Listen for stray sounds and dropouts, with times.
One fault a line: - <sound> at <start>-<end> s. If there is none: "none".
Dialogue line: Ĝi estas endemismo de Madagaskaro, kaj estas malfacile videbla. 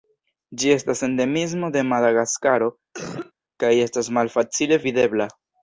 - cough at 2.9-3.3 s